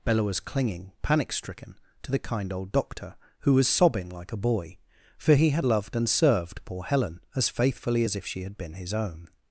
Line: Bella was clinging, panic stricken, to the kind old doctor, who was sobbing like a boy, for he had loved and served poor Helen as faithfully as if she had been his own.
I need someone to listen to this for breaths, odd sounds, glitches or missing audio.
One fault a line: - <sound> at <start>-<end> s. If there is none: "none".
none